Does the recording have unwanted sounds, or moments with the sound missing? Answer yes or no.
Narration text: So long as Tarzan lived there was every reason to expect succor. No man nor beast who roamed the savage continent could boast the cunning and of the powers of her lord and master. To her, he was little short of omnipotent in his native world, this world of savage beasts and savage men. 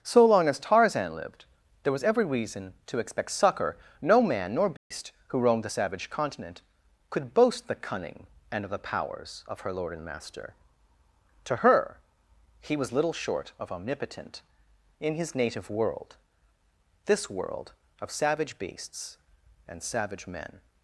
yes